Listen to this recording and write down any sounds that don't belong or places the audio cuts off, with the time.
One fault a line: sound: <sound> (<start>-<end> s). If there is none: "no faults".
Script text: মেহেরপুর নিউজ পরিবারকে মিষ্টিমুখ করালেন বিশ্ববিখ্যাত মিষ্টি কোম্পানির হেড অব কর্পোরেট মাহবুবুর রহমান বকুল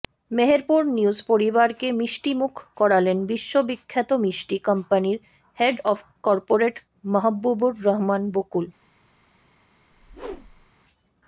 sound: whoosh (9.9-10.7 s)